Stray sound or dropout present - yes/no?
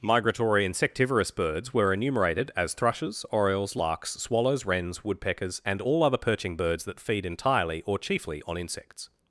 no